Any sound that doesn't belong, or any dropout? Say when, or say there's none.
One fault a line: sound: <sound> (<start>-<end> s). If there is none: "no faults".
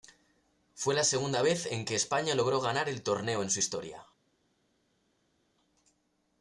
no faults